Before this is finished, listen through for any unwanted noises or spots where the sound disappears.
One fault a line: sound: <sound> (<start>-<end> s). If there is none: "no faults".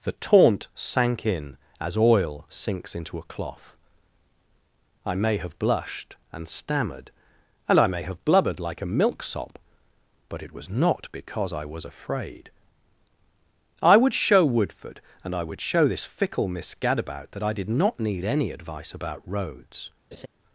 sound: laugh (20.1-20.3 s)